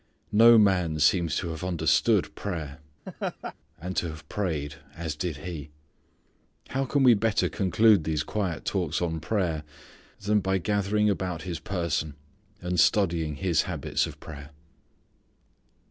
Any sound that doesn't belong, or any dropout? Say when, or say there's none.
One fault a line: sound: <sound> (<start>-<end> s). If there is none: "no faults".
sound: laugh (3.1-3.5 s)